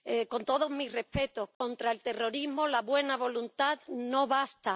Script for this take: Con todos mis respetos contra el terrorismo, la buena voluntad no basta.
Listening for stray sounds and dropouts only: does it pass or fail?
fail